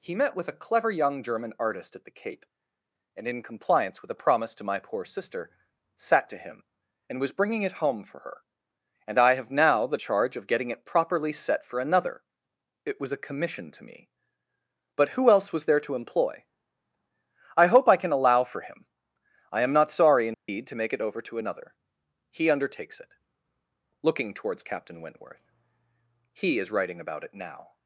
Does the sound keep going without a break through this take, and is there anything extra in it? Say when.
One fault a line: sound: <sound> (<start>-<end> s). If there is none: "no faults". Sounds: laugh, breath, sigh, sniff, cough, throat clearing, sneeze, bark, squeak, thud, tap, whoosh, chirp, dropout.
sound: dropout (20.3-20.5 s)